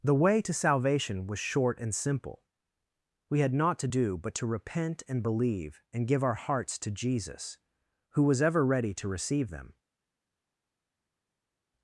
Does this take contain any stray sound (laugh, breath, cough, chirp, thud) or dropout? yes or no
no